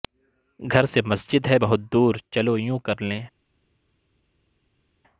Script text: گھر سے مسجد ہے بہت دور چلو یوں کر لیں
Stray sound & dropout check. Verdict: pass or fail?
pass